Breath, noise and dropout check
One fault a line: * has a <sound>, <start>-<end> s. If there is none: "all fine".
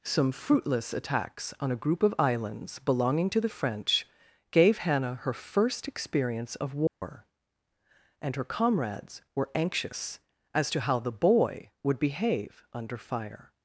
* has a dropout, 6.9-7.0 s